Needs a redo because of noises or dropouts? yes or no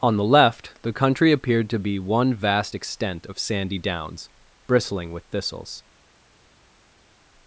no